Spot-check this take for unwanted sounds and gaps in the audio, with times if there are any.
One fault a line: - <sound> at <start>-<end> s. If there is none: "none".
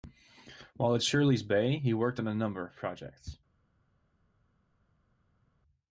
none